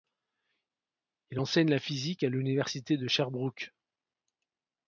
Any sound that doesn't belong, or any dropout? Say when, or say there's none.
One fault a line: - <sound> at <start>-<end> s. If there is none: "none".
none